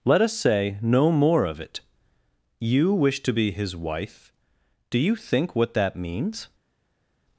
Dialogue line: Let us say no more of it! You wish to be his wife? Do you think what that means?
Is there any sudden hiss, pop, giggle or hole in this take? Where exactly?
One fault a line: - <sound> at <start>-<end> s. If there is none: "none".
none